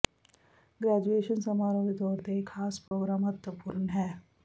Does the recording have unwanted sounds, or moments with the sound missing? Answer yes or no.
yes